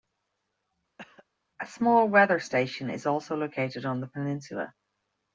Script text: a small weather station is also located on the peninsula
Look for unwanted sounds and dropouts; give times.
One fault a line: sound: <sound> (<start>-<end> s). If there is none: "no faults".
sound: cough (1.0-1.3 s)